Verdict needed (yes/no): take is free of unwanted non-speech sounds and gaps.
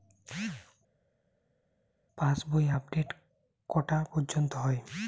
yes